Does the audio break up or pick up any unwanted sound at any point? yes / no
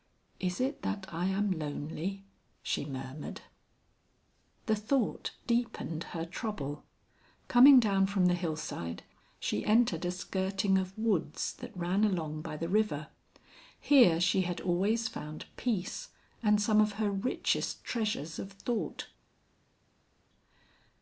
no